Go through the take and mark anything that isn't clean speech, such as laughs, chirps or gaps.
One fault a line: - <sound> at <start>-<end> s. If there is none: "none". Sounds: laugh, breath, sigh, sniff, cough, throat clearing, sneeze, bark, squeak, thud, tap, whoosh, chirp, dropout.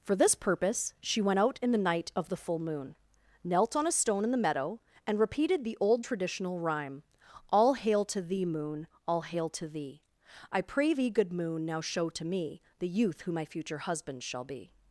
none